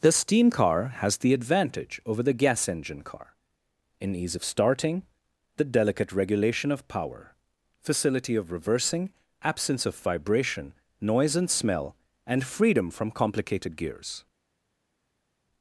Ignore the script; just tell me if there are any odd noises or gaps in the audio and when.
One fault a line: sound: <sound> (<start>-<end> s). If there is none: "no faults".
no faults